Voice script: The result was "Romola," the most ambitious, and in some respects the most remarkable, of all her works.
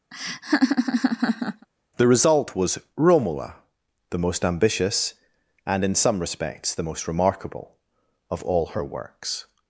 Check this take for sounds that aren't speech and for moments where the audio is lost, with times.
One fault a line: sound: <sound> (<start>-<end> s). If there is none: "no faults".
sound: laugh (0.1-1.7 s)